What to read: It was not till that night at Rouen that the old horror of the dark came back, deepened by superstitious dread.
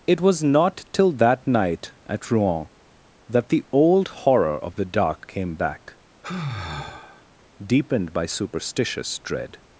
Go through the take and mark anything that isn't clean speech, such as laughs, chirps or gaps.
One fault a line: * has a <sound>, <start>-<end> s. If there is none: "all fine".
* has a sigh, 6.2-7.3 s